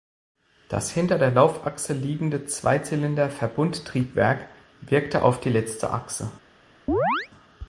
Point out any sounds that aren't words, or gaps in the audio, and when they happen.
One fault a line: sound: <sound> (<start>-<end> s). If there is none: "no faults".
sound: chirp (6.9-7.3 s)